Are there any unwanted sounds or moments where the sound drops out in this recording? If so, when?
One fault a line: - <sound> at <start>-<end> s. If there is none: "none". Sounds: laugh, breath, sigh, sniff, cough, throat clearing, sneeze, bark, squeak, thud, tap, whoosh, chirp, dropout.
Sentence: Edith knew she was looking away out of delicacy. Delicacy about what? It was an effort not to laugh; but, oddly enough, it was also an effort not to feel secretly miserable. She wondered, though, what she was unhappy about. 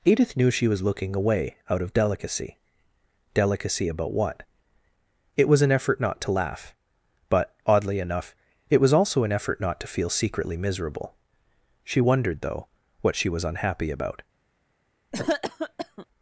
- cough at 15.1-16.1 s